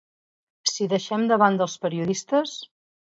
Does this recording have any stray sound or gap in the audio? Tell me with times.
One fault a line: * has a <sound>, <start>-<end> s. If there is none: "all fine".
all fine